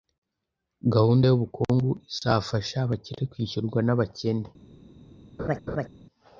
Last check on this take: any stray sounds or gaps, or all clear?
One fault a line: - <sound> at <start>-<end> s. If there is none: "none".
- laugh at 5.4-5.9 s